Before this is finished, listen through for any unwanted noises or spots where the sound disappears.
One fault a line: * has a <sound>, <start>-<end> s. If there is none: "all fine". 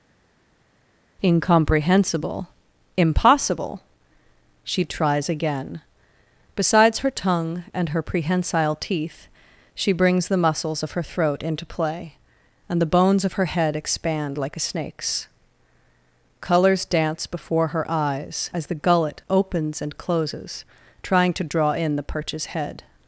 all fine